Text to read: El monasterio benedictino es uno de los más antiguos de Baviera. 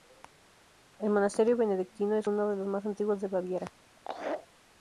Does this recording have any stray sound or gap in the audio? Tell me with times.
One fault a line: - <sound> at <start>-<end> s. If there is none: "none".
- laugh at 4.0-4.5 s